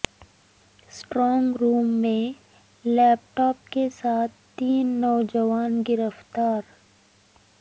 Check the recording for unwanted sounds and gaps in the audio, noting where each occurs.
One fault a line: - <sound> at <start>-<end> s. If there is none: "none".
none